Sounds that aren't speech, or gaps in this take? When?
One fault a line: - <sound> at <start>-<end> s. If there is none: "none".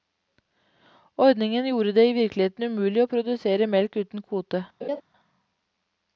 - laugh at 4.8-5.0 s